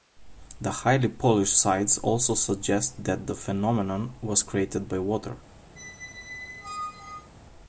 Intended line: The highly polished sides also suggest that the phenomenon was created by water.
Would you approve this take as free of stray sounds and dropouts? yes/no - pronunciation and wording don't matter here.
no